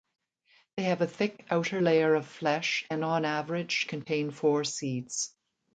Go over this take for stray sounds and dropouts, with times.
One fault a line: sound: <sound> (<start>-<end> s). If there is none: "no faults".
no faults